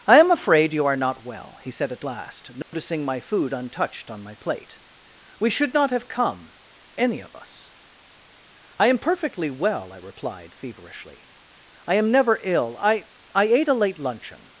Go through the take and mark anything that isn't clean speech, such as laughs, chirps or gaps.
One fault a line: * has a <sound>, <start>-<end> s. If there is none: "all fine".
* has a dropout, 2.6-2.7 s